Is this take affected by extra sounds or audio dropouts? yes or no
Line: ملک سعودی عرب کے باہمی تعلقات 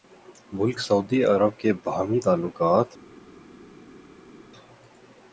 no